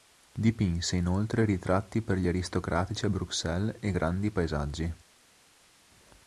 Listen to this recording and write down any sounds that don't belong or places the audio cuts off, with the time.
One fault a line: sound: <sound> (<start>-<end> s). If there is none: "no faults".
no faults